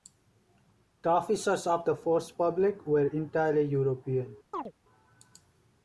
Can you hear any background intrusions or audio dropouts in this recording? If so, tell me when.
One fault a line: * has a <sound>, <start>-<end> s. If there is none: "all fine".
* has a chirp, 4.5-4.7 s